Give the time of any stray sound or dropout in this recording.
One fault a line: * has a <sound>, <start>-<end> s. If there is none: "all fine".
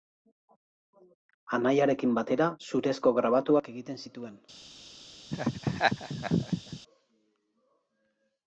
* has a laugh, 5.3-6.8 s